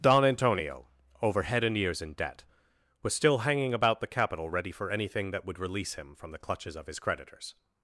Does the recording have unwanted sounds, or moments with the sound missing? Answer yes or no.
no